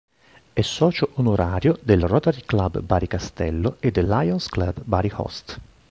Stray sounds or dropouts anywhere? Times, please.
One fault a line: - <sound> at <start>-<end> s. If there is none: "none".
none